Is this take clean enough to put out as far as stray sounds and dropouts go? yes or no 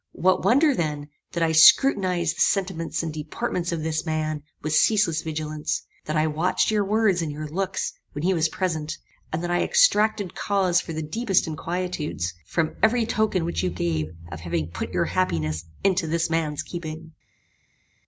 yes